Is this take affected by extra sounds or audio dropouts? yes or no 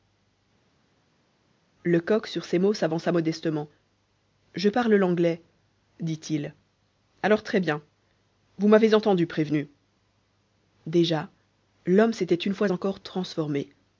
no